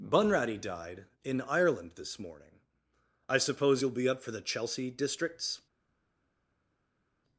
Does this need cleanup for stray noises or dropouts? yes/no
no